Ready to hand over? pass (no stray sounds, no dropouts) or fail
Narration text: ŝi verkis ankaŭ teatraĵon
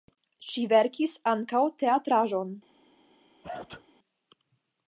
fail